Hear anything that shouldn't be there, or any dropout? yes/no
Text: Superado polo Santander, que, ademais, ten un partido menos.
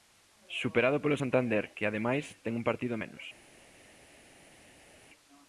no